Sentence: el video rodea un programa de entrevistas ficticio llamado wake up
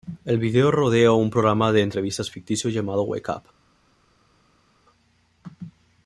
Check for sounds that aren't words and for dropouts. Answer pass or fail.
pass